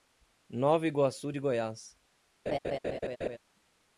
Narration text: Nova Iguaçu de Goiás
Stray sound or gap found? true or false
true